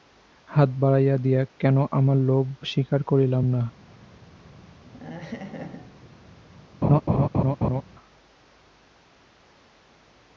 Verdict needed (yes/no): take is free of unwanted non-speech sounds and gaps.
no